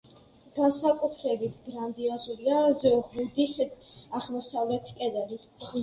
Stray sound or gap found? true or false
false